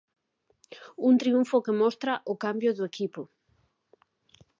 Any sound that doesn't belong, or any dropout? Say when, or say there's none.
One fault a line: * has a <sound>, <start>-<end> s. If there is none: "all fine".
all fine